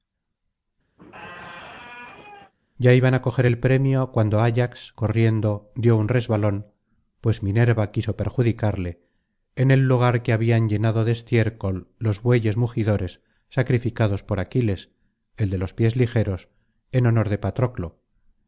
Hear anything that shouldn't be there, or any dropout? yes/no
yes